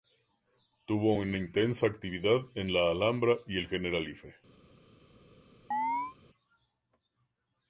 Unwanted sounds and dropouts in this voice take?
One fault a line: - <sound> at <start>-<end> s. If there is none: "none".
- chirp at 5.7-6.2 s